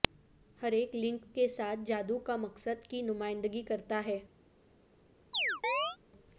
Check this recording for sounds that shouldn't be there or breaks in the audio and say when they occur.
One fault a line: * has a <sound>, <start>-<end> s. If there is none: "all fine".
* has a chirp, 5.3-6.0 s